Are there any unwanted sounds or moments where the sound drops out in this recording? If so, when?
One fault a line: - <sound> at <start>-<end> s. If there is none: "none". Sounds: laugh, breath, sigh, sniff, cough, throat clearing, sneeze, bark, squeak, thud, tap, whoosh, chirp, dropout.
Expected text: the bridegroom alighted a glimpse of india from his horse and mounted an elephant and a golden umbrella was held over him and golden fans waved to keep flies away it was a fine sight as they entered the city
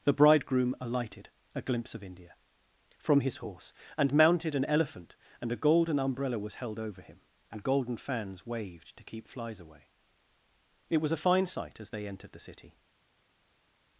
none